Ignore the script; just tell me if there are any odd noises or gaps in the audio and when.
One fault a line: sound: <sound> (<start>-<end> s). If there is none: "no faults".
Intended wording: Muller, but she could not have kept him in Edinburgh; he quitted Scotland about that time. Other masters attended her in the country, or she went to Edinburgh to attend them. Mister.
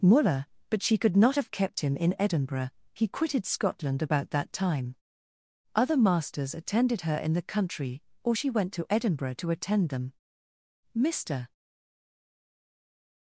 no faults